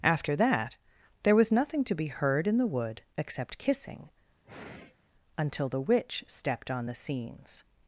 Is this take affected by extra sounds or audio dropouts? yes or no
yes